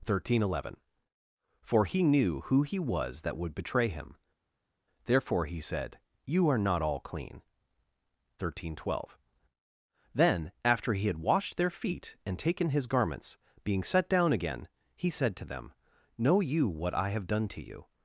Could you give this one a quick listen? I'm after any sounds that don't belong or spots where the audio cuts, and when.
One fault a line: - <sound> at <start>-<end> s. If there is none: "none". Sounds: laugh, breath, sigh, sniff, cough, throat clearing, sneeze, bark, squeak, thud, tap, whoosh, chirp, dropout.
none